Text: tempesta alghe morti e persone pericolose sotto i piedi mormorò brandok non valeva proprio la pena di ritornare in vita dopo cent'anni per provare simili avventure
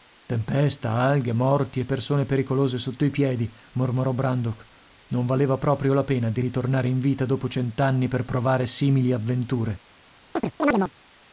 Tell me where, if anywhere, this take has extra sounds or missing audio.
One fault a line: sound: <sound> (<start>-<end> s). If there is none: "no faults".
sound: chirp (10.4-10.9 s)